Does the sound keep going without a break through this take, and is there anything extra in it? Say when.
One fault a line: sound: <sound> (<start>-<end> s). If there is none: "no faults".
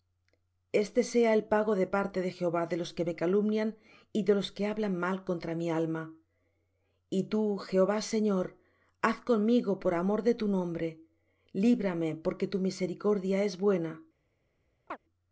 sound: chirp (14.9-15.0 s)